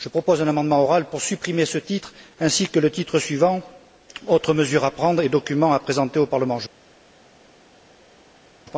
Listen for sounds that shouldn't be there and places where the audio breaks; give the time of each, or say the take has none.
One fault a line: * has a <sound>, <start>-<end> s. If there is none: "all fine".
all fine